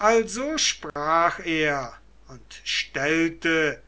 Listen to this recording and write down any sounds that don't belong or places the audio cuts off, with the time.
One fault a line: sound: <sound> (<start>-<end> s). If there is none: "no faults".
sound: dropout (0.9-1.0 s)